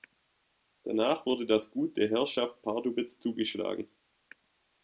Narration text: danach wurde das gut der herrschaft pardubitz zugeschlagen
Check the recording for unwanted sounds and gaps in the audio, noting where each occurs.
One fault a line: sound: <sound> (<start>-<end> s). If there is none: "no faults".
no faults